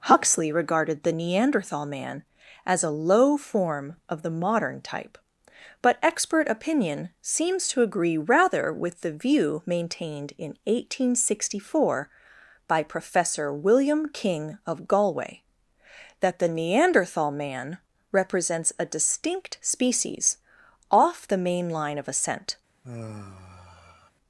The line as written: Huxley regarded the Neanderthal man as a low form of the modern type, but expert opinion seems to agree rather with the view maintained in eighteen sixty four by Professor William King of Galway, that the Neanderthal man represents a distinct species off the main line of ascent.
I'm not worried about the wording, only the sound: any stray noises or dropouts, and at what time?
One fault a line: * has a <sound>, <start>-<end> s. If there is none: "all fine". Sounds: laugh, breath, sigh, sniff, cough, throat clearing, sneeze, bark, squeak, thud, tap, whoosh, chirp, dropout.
* has a sigh, 22.8-24.1 s